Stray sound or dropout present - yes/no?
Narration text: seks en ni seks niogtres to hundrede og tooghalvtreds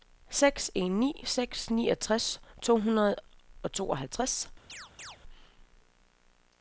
yes